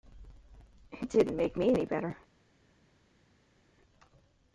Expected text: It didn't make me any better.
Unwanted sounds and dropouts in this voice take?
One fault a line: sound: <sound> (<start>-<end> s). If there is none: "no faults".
no faults